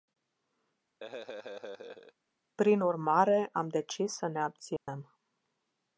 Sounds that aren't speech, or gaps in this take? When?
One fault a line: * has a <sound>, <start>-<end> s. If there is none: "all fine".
* has a laugh, 1.0-2.1 s
* has a dropout, 4.8-4.9 s